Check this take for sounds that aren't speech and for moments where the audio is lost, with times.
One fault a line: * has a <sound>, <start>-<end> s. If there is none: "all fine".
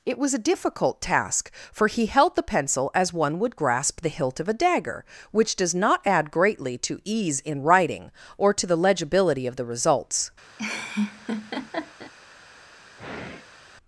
* has a laugh, 10.6-12.1 s
* has a sigh, 13.0-13.6 s